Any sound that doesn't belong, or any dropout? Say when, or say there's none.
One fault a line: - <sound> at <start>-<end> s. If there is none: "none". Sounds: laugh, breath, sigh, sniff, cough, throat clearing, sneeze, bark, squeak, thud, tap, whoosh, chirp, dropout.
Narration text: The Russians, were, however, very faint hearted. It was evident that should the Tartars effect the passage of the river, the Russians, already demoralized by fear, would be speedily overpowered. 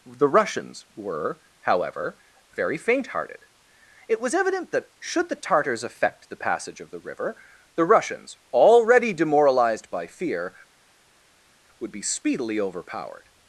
none